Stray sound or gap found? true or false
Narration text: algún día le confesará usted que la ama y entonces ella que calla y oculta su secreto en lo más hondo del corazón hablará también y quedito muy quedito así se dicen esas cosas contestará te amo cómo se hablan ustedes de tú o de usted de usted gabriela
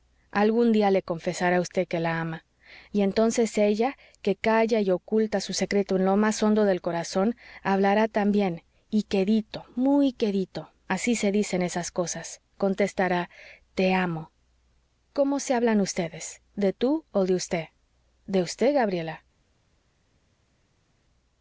false